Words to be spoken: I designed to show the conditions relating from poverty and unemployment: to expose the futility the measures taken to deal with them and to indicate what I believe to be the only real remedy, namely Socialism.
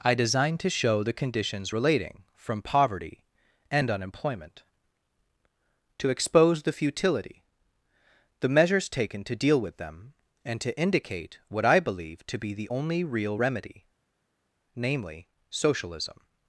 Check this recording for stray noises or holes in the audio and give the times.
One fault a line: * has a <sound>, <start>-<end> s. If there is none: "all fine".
all fine